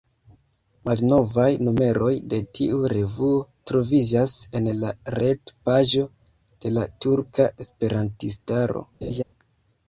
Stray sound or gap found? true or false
true